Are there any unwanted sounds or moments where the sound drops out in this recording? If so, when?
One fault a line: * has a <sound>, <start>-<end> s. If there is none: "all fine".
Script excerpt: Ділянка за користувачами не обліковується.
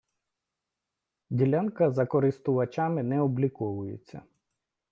all fine